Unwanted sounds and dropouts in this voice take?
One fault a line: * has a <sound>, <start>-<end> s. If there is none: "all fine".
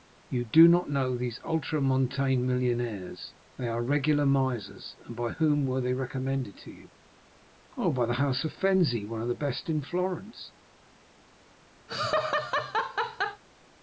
* has a laugh, 11.9-13.4 s